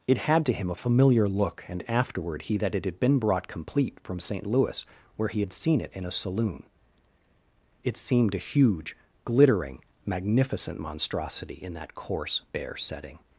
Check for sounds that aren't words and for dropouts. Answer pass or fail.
pass